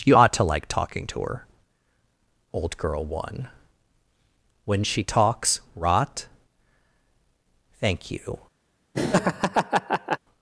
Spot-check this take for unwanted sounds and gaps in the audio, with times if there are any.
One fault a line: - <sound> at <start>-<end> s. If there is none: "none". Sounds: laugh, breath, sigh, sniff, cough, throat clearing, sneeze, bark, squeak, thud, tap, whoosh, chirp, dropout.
- laugh at 8.9-10.2 s